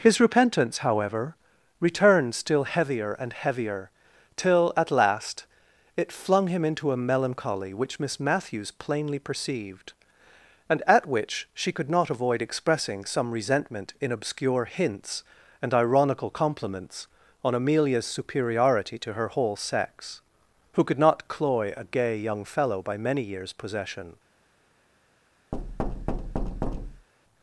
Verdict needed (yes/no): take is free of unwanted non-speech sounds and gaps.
no